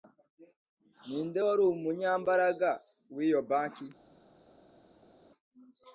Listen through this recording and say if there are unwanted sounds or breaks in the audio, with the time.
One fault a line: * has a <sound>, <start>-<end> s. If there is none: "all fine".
all fine